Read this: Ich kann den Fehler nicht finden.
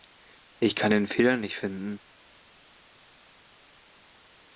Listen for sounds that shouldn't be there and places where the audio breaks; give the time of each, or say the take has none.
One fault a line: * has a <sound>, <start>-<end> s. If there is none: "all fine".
all fine